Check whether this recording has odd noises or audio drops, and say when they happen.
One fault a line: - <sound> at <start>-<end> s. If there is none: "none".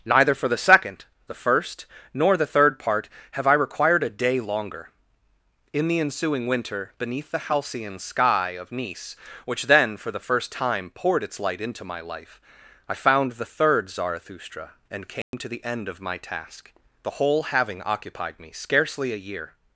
- dropout at 15.2-15.3 s